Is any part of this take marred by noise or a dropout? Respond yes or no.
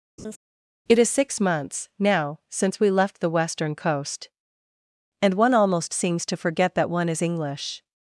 yes